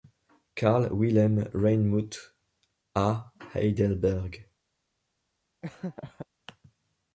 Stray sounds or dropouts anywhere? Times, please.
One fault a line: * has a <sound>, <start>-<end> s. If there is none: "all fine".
* has a laugh, 5.6-6.3 s